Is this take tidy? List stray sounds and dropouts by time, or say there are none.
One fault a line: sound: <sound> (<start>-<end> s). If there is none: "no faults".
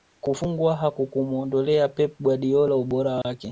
sound: dropout (3.2-3.2 s)